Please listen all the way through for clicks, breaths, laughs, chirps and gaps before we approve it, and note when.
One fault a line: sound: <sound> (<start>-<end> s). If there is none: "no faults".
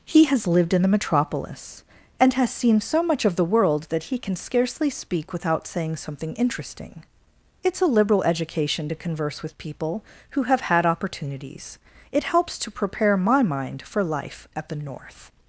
no faults